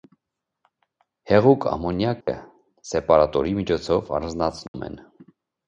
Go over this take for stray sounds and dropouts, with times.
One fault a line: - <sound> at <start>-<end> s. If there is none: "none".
- dropout at 2.2-2.3 s
- dropout at 4.7-4.7 s